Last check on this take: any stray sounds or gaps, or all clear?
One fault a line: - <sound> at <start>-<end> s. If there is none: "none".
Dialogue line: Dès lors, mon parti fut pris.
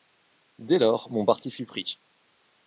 none